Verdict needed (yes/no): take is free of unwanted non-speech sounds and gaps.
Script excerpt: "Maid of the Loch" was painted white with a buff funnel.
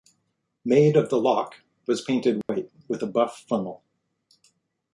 no